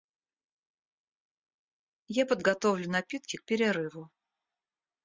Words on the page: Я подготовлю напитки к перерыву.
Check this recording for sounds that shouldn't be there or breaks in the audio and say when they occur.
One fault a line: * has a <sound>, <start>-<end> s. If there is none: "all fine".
all fine